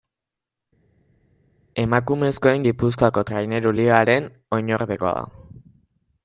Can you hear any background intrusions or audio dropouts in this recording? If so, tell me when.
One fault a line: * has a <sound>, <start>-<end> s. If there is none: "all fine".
all fine